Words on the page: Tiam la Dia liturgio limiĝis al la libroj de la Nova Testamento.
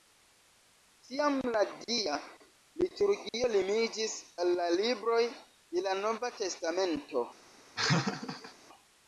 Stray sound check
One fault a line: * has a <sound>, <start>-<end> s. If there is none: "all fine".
* has a laugh, 7.8-8.5 s